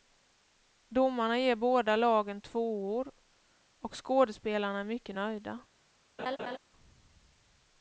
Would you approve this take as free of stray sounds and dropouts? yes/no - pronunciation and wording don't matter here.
no